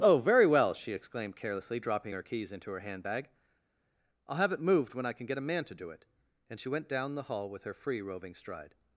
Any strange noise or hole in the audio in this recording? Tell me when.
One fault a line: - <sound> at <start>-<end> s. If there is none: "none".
none